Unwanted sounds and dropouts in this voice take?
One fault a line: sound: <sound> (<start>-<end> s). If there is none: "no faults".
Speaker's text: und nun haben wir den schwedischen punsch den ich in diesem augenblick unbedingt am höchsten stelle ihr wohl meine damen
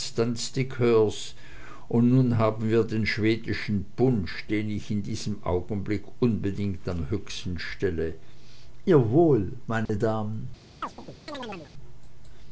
sound: dropout (9.9-9.9 s)
sound: chirp (10.8-11.7 s)